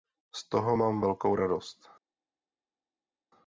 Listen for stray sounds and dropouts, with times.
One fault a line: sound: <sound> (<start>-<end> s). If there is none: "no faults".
no faults